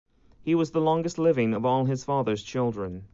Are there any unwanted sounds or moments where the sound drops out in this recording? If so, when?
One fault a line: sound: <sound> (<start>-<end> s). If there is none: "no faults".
no faults